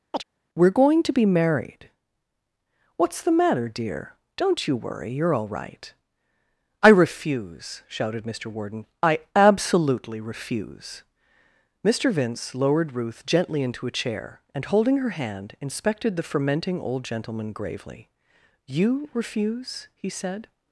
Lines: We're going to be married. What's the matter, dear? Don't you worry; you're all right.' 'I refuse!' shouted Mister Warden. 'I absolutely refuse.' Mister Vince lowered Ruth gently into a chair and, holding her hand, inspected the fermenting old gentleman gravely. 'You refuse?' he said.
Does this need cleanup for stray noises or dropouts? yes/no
yes